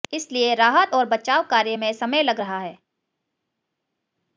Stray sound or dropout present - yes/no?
no